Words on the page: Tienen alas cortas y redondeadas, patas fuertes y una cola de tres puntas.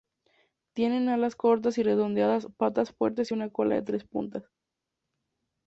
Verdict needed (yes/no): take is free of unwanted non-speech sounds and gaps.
yes